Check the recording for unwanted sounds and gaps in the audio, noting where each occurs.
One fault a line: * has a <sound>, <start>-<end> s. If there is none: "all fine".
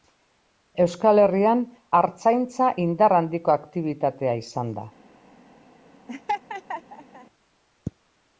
* has a laugh, 6.1-7.3 s